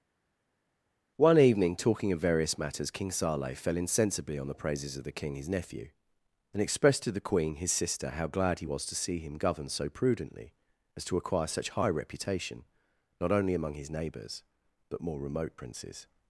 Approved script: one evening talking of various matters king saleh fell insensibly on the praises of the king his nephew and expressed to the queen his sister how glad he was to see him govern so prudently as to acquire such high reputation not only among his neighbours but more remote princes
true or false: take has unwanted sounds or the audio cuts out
false